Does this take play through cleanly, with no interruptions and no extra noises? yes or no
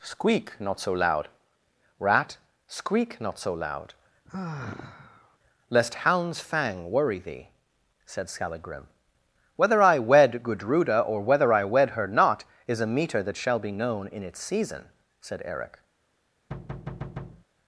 no